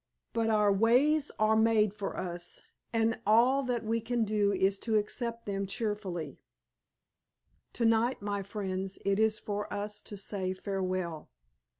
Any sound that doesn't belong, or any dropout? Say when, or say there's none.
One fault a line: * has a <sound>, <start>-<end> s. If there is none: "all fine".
all fine